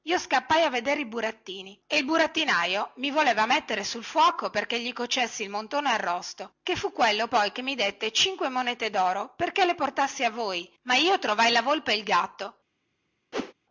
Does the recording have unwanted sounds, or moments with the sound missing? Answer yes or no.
yes